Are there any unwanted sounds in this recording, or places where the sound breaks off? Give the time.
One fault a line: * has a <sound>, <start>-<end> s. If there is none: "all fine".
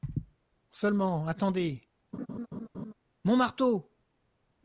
* has a laugh, 2.1-2.9 s